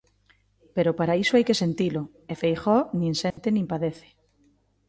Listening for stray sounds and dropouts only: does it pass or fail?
fail